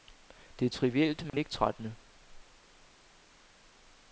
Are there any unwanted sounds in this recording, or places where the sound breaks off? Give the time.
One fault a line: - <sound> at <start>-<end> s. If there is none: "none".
- dropout at 1.3-1.3 s